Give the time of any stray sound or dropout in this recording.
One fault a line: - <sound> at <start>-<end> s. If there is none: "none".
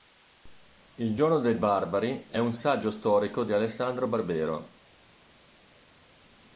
none